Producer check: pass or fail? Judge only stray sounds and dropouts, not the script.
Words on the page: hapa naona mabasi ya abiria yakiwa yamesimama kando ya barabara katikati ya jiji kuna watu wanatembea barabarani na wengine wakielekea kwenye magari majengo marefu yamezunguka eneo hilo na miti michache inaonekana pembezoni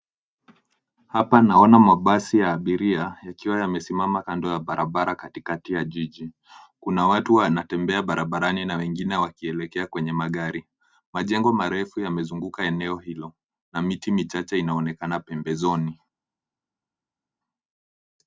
pass